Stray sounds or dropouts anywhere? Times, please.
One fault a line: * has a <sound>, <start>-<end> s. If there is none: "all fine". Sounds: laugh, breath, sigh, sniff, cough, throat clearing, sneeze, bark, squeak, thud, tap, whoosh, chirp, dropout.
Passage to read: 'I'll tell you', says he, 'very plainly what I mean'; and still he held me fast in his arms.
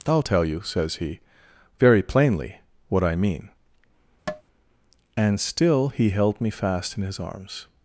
* has a tap, 4.3-4.4 s